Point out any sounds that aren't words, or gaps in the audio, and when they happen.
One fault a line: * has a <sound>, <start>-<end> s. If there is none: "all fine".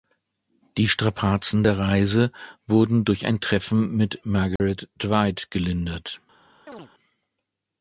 * has a dropout, 4.6-4.6 s
* has a chirp, 6.7-6.9 s